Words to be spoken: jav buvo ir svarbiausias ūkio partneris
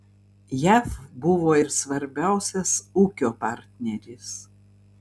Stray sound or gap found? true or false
false